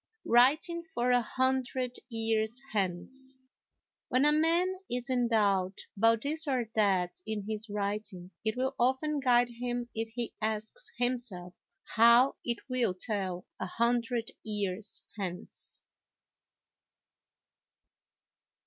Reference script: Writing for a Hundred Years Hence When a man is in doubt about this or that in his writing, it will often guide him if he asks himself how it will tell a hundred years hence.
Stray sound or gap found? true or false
false